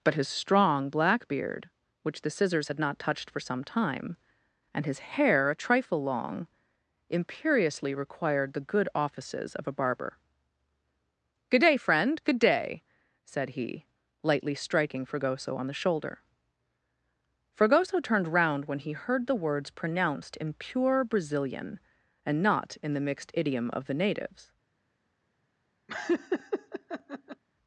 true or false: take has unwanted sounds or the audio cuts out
true